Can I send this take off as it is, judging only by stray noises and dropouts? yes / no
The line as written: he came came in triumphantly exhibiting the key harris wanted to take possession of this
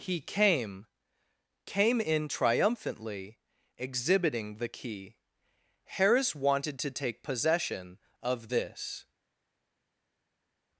yes